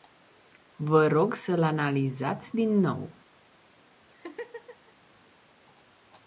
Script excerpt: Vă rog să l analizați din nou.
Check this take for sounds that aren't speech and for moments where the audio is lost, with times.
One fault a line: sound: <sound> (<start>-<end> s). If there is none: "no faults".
sound: laugh (4.1-4.9 s)